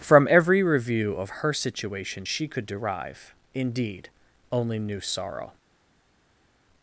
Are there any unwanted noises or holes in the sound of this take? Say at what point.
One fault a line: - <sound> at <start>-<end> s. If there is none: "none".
none